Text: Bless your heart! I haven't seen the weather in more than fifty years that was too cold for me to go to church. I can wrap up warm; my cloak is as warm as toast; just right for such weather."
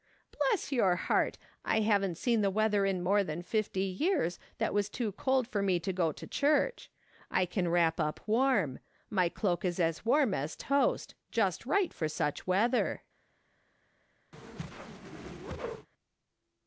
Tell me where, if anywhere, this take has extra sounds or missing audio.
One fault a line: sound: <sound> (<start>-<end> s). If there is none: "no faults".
sound: whoosh (14.3-15.9 s)